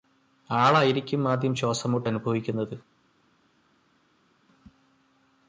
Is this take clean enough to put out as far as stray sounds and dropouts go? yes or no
yes